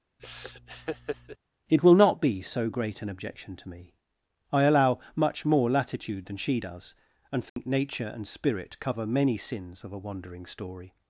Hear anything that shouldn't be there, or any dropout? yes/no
yes